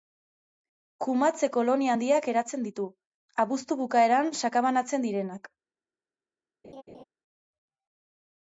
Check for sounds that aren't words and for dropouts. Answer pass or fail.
fail